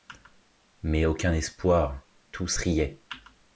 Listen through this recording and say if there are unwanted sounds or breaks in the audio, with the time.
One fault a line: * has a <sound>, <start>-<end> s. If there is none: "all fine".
all fine